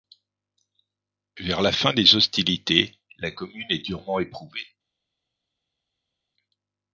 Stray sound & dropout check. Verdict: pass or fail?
pass